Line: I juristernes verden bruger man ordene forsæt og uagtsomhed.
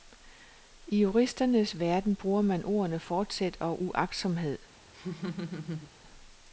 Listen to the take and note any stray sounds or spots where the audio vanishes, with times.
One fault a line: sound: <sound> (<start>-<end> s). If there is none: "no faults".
sound: laugh (4.9-5.9 s)